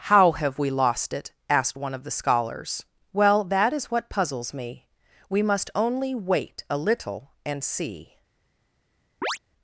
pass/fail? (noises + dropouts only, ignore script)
fail